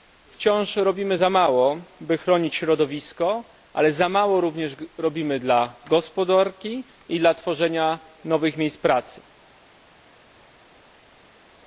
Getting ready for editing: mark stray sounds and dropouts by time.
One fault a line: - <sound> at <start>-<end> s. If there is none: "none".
none